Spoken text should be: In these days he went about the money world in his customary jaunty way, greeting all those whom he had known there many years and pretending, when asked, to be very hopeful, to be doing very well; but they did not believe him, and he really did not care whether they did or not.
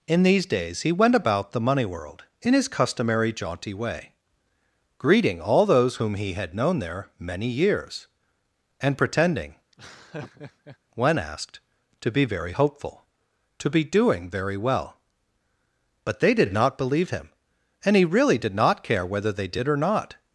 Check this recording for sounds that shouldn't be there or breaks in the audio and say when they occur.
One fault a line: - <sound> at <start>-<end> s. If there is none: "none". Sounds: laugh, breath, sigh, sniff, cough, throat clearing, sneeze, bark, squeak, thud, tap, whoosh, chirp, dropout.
- laugh at 9.7-10.8 s